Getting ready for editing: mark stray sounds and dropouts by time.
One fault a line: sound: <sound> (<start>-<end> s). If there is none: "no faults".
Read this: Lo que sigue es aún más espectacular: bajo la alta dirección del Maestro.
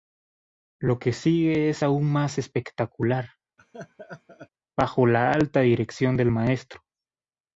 sound: laugh (3.6-4.5 s)